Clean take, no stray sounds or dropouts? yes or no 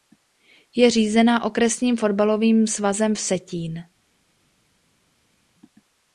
yes